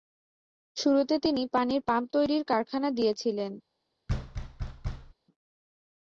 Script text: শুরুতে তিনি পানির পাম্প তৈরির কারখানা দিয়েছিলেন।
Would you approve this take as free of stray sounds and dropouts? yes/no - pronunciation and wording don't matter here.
no